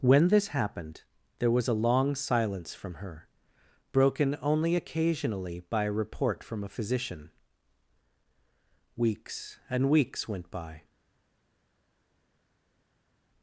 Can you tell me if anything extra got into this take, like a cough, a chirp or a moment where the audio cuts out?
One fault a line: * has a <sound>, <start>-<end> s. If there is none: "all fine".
all fine